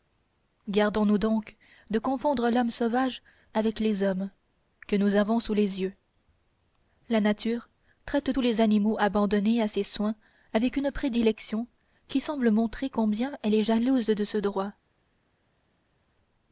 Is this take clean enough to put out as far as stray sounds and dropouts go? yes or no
yes